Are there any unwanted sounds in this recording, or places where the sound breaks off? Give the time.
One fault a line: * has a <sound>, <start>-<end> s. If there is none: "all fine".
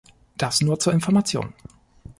all fine